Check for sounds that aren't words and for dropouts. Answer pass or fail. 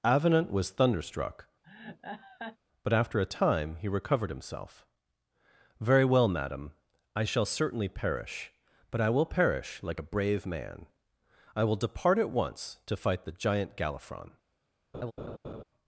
fail